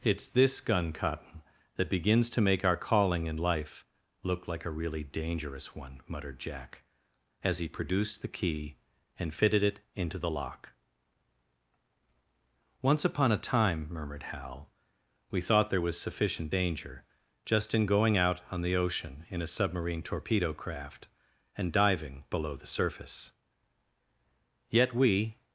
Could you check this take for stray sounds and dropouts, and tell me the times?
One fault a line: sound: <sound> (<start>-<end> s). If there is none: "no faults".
no faults